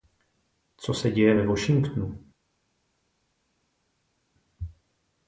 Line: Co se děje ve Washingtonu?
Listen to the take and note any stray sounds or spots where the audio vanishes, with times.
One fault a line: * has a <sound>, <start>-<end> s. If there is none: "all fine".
all fine